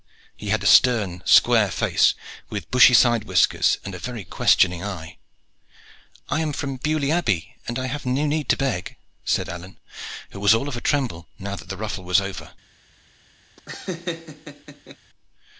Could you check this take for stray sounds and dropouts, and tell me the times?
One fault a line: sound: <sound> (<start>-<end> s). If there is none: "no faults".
sound: laugh (13.6-15.0 s)